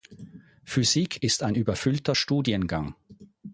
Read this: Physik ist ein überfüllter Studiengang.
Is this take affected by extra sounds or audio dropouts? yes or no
no